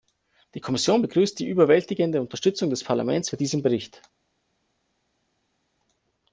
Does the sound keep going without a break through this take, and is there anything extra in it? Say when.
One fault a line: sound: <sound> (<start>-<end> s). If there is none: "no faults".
no faults